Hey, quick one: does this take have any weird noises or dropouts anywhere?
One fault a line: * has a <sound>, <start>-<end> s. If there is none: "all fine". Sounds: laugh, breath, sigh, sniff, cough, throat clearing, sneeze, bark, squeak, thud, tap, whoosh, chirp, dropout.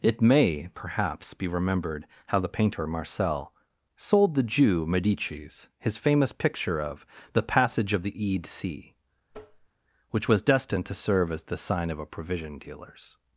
* has a tap, 9.3-9.7 s